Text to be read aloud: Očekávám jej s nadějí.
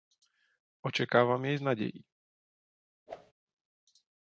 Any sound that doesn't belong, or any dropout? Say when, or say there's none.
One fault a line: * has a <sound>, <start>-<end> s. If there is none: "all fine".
* has a whoosh, 3.1-3.3 s